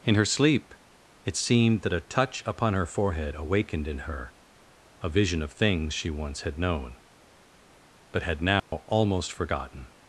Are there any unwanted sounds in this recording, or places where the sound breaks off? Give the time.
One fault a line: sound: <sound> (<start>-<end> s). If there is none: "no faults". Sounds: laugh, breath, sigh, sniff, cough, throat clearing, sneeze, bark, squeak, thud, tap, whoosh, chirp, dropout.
sound: dropout (8.6-8.7 s)